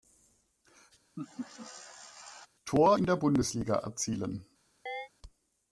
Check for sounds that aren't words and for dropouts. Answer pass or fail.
fail